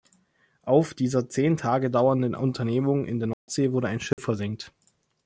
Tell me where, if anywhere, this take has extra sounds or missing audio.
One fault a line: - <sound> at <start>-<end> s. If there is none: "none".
- dropout at 3.3-3.5 s
- dropout at 4.1-4.2 s